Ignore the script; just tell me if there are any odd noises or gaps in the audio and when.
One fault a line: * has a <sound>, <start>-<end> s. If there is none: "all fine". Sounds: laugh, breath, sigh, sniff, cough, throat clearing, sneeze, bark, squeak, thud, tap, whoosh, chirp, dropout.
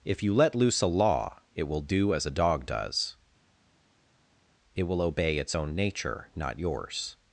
all fine